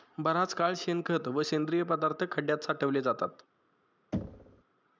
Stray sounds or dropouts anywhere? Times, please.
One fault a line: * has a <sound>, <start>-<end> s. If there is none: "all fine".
* has a thud, 4.1-4.6 s